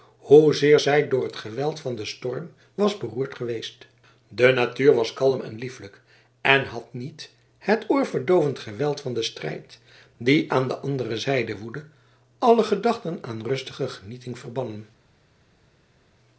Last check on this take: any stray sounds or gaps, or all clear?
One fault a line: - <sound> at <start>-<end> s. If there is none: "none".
none